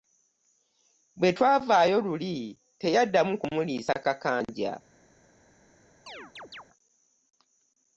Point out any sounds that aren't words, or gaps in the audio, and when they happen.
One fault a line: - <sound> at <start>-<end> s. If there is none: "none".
- chirp at 6.1-6.6 s